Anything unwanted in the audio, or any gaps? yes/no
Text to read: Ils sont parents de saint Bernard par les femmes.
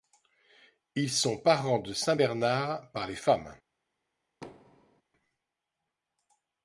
yes